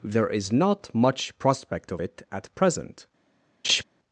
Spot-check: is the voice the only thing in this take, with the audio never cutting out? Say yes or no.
no